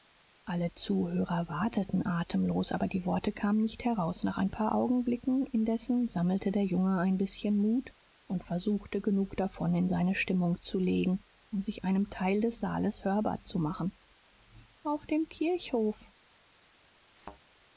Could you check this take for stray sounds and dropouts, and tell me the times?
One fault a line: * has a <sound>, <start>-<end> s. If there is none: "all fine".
* has a thud, 17.2-17.4 s